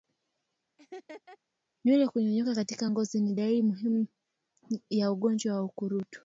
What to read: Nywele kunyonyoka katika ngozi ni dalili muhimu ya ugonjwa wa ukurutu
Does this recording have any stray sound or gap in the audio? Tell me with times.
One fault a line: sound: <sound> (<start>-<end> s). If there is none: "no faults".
sound: laugh (0.8-1.4 s)